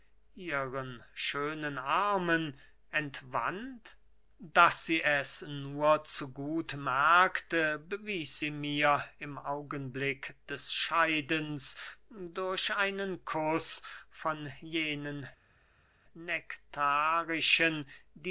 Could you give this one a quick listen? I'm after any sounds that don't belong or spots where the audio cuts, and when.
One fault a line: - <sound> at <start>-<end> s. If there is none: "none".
none